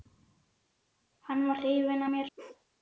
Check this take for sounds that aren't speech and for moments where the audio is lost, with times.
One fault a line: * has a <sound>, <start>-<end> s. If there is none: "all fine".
* has a bark, 2.4-2.7 s